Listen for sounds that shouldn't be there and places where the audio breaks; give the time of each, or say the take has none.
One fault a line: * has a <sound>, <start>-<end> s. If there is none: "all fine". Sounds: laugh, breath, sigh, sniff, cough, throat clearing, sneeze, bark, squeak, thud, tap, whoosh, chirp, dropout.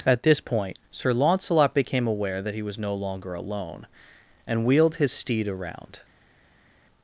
all fine